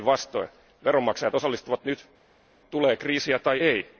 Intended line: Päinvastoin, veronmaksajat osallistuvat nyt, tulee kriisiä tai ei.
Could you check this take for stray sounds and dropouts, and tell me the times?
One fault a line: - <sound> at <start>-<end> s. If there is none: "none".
none